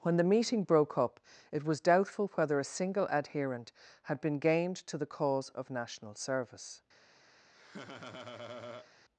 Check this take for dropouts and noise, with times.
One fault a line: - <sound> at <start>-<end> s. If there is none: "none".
- laugh at 7.5-8.9 s